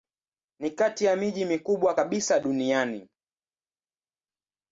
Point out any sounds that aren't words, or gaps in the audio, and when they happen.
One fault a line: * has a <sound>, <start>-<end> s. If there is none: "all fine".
all fine